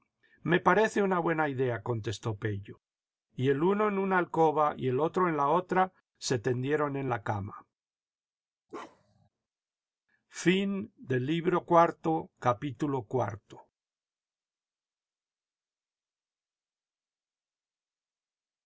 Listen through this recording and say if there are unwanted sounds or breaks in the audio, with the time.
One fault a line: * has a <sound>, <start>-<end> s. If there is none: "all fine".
* has a bark, 8.7-9.3 s